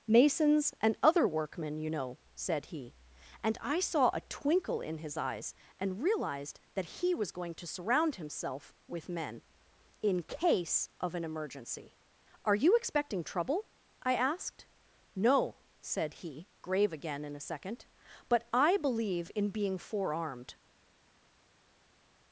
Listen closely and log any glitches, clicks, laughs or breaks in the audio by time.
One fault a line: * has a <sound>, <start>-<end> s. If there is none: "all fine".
all fine